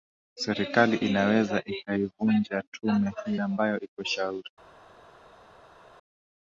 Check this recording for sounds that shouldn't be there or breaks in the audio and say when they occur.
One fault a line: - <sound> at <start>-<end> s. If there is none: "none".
none